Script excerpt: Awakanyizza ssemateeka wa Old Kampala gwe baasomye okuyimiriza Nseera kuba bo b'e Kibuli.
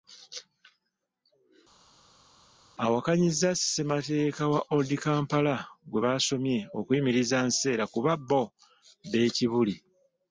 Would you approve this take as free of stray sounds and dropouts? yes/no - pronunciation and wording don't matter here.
yes